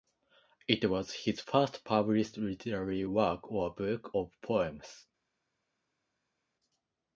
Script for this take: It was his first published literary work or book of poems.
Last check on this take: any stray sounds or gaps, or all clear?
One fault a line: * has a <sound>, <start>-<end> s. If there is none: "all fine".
all fine